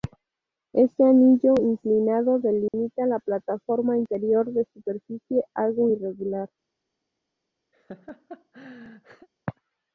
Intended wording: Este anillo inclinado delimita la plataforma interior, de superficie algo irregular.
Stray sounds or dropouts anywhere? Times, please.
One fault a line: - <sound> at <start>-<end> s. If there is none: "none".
- dropout at 2.7-2.7 s
- laugh at 7.7-9.3 s